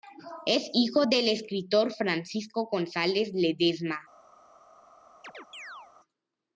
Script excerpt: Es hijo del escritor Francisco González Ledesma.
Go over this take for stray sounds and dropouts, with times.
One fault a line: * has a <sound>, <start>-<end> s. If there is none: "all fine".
* has a chirp, 5.2-5.9 s